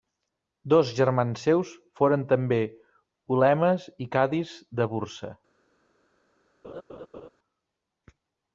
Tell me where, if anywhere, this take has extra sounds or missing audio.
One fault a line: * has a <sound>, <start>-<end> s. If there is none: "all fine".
* has a laugh, 6.6-7.3 s